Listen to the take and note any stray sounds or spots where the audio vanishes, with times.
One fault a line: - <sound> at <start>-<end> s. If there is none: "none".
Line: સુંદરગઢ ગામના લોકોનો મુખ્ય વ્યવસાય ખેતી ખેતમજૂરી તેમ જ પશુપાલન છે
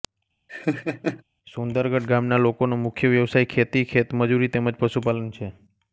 - laugh at 0.5-1.2 s